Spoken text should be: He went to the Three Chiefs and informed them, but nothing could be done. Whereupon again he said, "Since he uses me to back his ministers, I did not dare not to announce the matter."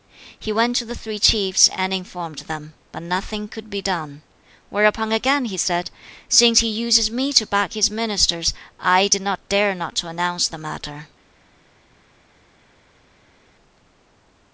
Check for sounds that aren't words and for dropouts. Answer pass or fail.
pass